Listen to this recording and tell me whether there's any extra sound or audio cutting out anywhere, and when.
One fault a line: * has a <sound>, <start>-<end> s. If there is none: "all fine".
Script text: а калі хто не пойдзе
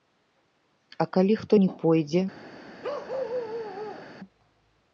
* has a bark, 2.8-4.1 s